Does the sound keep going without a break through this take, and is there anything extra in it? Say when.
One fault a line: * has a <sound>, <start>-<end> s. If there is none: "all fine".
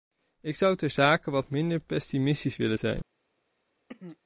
* has a throat clearing, 3.9-4.2 s